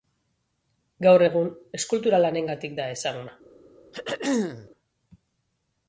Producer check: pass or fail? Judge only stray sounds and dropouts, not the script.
fail